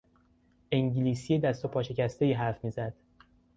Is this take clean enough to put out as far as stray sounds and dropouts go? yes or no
yes